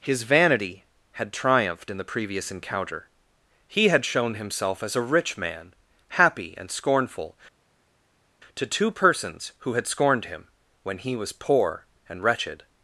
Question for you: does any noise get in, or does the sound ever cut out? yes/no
no